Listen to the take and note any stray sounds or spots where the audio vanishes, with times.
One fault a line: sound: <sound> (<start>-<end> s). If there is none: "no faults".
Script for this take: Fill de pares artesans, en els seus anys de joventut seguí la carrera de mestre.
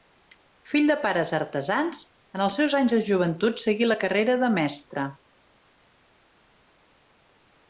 no faults